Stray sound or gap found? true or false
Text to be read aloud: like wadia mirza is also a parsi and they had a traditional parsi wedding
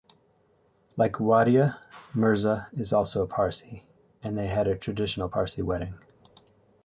false